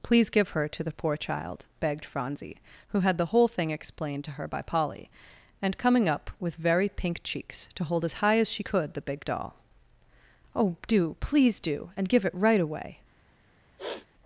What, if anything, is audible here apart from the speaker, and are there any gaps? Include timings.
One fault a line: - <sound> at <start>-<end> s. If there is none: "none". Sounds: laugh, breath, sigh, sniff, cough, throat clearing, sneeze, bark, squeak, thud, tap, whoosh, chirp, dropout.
- sniff at 13.8-14.1 s